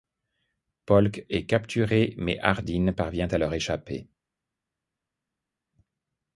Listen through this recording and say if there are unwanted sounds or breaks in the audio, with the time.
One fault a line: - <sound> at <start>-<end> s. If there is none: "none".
none